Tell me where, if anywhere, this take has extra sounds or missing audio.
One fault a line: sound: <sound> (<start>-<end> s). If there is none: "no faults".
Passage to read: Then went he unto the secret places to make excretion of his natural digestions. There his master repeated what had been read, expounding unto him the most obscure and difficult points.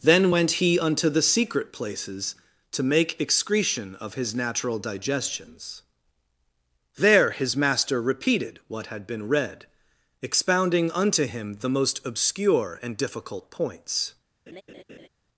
sound: laugh (14.5-15.1 s)